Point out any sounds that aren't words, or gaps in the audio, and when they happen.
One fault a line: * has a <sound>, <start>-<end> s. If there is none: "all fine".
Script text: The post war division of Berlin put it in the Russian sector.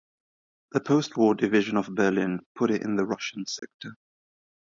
* has a dropout, 3.6-3.6 s